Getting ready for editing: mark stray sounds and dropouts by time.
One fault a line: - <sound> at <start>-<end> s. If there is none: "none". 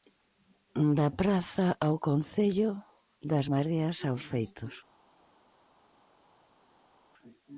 none